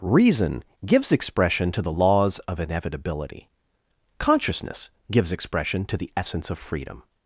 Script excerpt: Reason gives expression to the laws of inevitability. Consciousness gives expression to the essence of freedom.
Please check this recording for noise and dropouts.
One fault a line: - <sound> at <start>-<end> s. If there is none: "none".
none